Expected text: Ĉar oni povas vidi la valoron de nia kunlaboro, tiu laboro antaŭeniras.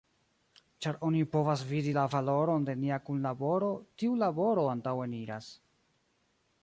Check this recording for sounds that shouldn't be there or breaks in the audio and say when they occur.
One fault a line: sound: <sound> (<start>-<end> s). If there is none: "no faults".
no faults